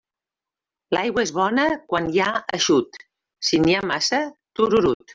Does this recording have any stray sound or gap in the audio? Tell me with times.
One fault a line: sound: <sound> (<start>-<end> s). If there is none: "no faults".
sound: dropout (4.9-5.0 s)